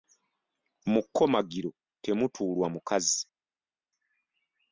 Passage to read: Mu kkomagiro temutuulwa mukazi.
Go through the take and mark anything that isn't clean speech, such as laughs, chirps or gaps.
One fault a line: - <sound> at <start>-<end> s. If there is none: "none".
none